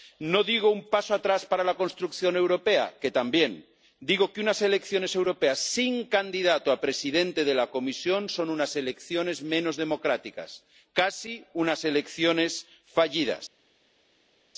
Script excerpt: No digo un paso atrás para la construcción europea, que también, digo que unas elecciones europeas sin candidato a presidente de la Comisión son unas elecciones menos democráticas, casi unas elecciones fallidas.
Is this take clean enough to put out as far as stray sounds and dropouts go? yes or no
yes